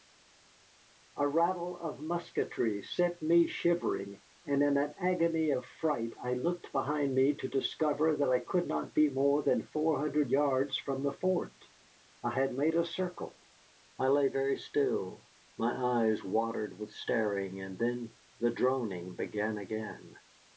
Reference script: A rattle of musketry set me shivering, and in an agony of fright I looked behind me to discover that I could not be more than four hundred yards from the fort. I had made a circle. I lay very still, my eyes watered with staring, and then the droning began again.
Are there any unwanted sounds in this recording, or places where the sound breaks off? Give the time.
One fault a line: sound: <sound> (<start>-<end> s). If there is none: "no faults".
no faults